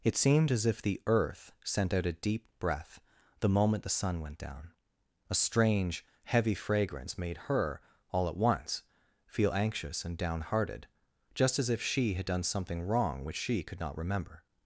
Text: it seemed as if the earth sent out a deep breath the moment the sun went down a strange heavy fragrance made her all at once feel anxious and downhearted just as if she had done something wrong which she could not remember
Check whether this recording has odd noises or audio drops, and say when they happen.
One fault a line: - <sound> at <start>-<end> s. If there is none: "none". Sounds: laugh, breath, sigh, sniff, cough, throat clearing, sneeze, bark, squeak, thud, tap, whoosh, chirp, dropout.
none